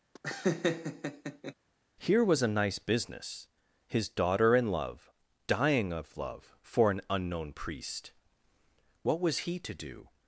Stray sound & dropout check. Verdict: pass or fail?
fail